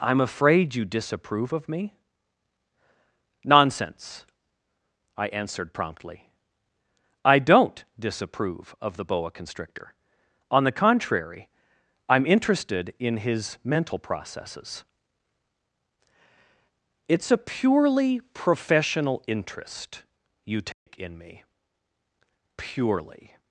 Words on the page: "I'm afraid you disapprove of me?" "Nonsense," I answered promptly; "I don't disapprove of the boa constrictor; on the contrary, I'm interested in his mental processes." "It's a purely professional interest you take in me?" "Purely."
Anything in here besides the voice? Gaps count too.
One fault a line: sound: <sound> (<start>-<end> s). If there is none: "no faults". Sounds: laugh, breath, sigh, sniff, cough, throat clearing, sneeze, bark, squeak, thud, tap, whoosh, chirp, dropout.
sound: dropout (20.7-20.9 s)